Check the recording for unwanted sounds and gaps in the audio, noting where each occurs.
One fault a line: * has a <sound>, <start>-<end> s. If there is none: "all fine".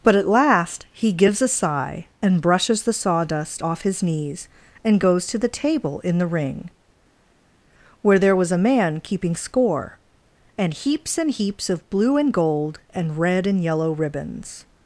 all fine